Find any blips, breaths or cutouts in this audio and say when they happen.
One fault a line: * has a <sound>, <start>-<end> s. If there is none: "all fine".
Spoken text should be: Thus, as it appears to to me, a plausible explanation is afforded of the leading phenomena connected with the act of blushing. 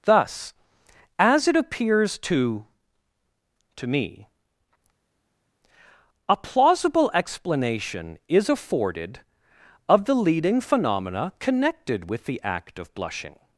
all fine